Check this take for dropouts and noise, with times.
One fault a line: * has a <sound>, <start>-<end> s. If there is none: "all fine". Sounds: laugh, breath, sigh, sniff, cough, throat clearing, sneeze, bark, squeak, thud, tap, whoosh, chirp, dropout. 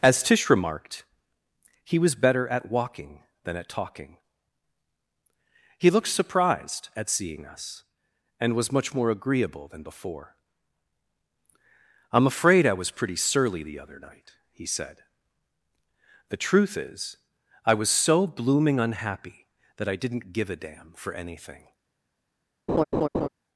* has a laugh, 22.7-23.3 s